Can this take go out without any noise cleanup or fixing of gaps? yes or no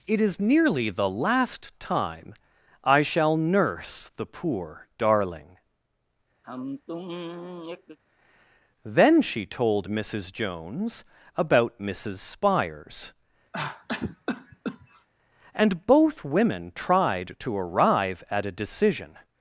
no